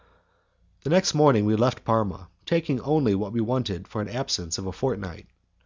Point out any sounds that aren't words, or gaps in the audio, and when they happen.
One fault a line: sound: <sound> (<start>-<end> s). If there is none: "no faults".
no faults